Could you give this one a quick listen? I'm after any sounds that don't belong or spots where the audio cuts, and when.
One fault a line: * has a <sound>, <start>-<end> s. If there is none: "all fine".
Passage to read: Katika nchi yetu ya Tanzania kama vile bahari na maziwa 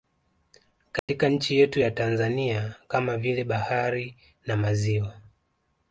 * has a dropout, 1.0-1.1 s